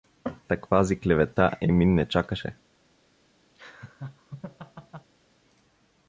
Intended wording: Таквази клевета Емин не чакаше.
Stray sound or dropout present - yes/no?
yes